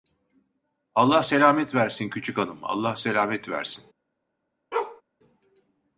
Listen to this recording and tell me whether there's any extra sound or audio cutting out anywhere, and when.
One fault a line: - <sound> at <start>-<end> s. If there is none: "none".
- bark at 4.7-5.0 s